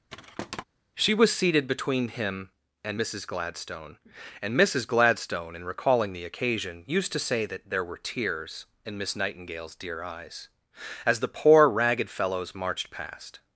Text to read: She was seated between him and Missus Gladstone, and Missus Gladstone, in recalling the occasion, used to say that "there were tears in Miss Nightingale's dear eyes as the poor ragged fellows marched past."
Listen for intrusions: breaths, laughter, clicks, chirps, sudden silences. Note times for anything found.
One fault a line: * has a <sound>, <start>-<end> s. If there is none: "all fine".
* has a thud, 0.1-0.6 s